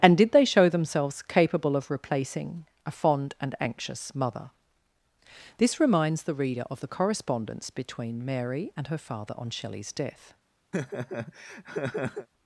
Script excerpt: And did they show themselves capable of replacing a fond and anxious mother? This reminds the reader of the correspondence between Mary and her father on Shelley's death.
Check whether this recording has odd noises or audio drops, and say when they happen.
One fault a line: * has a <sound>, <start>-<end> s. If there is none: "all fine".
* has a laugh, 10.7-12.3 s